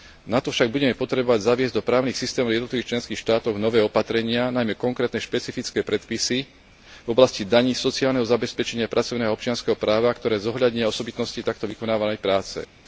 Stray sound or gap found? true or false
false